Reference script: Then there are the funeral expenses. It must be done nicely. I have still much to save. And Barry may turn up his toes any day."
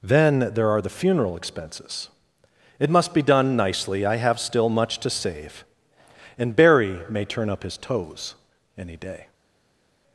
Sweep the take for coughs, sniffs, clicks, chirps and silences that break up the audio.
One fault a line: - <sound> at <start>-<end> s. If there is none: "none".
none